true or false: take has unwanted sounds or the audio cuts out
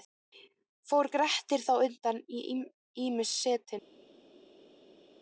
false